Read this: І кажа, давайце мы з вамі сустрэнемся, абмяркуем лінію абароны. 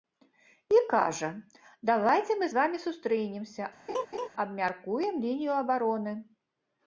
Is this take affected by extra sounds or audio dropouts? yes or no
yes